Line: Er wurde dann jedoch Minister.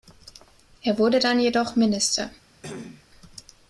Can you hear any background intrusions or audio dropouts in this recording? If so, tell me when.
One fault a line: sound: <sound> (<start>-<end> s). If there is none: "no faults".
sound: cough (2.6-3.0 s)